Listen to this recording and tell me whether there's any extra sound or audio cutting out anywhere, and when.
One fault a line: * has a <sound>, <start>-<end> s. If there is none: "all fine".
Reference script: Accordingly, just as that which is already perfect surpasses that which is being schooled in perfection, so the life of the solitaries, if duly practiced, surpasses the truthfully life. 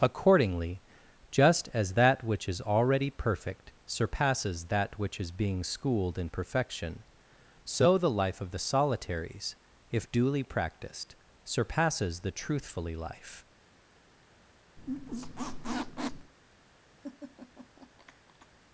* has a squeak, 14.8-16.3 s
* has a laugh, 17.0-18.5 s